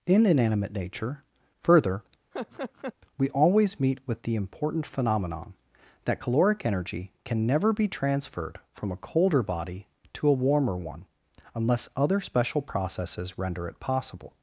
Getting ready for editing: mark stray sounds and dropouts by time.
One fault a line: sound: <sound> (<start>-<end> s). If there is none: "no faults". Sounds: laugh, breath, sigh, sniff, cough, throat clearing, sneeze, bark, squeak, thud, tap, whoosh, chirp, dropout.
sound: laugh (2.3-2.9 s)